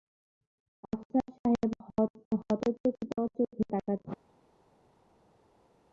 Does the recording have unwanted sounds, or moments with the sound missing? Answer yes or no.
no